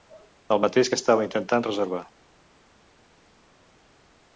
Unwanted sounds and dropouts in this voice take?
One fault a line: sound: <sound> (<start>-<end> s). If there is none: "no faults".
no faults